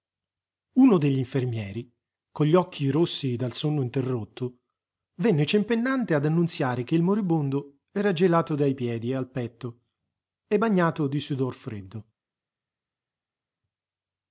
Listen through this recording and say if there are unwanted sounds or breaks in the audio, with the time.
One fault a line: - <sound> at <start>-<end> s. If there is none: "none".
none